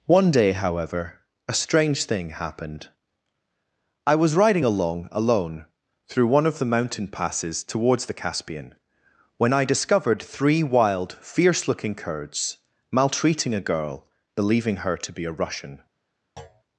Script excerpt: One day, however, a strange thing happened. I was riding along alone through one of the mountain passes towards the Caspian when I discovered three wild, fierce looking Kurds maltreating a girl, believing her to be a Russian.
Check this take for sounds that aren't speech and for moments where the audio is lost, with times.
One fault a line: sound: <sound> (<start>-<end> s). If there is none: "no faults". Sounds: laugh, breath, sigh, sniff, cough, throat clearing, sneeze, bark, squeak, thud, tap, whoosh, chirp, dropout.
sound: thud (16.4-16.6 s)